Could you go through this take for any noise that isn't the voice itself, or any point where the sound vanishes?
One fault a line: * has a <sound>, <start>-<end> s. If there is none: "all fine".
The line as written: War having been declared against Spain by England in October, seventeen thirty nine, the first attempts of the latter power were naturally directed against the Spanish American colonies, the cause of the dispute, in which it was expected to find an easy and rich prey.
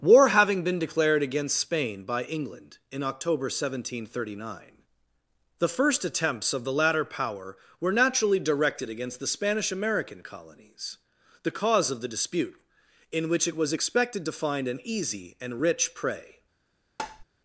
* has a tap, 17.0-17.2 s